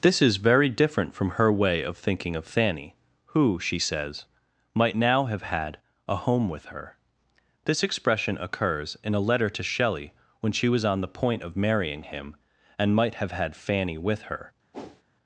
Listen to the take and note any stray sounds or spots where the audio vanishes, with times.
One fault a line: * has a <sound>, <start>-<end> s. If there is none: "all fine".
* has a whoosh, 14.7-15.0 s